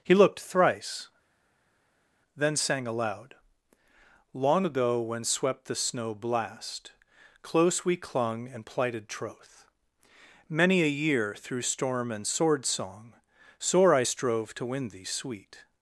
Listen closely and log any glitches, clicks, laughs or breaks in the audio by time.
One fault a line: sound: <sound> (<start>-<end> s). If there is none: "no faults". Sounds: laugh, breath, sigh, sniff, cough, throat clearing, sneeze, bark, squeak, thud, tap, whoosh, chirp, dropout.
no faults